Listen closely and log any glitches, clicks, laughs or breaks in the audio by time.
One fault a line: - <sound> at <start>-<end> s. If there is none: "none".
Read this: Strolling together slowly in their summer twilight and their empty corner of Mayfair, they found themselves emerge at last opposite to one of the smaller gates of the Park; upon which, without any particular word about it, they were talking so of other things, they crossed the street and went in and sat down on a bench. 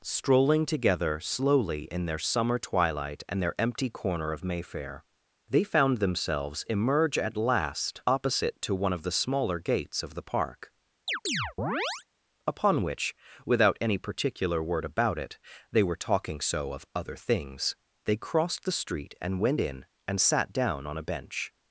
- chirp at 11.1-12.0 s